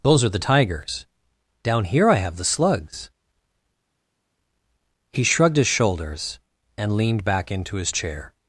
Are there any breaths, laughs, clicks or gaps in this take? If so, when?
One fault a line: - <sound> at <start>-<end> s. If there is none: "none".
none